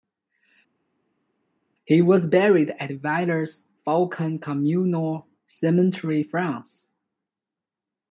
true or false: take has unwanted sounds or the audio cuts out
false